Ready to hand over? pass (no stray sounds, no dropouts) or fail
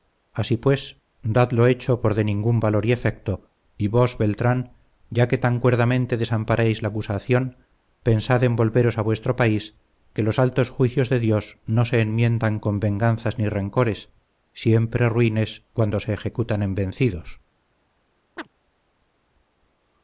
fail